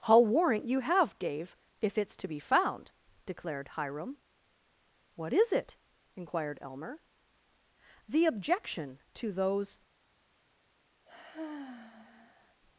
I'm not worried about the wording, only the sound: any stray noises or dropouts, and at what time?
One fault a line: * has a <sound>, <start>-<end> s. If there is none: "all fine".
* has a sigh, 11.1-12.6 s